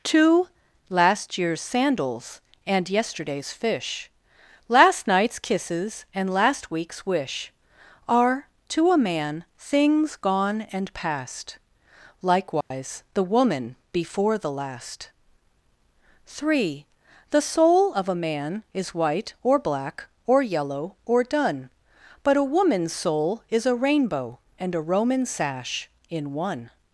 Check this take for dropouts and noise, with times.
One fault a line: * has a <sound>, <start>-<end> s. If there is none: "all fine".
* has a dropout, 12.6-12.7 s